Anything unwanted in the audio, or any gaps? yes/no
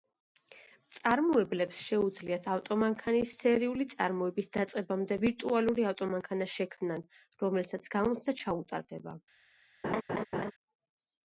yes